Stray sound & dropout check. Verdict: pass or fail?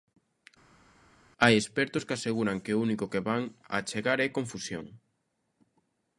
pass